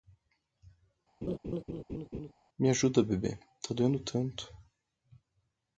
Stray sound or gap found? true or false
true